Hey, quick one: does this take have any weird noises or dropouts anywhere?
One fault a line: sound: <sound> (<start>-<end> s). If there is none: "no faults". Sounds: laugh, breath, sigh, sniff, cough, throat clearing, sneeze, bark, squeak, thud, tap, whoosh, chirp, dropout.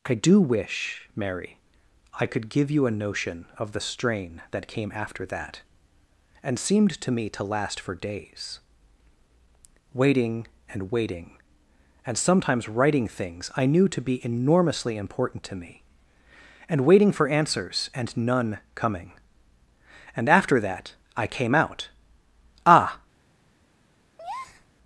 sound: breath (24.2-24.7 s)